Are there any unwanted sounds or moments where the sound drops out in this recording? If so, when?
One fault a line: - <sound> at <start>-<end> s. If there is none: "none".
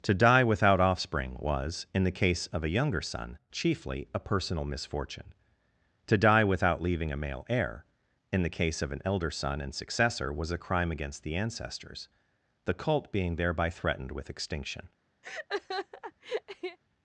- laugh at 15.2-16.8 s